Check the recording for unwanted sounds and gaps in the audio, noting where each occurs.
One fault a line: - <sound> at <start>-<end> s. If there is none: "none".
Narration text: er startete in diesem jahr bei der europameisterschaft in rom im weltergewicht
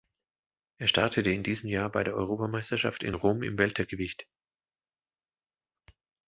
none